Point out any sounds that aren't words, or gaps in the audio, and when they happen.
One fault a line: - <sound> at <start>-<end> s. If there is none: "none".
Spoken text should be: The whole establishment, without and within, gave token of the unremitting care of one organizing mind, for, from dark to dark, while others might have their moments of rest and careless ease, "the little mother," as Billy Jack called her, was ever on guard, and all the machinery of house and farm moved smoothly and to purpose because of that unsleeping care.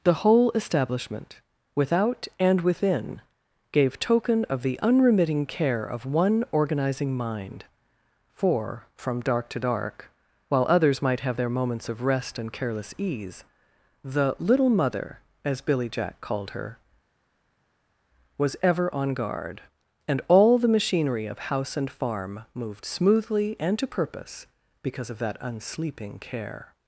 none